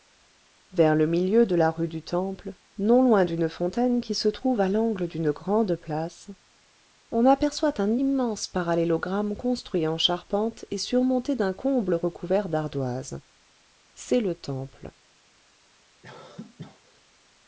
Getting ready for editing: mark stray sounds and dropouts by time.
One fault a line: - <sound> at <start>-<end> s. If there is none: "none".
- cough at 16.0-17.0 s